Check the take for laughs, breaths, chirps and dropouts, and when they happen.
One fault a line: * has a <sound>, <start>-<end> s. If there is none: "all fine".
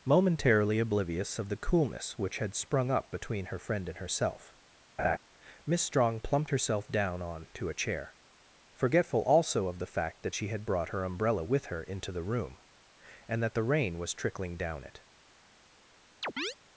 * has a laugh, 5.0-5.2 s
* has a chirp, 16.2-16.6 s